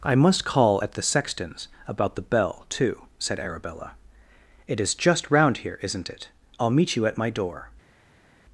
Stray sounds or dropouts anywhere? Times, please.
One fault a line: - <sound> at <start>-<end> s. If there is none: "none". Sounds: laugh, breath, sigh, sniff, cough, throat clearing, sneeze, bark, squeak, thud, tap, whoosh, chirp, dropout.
none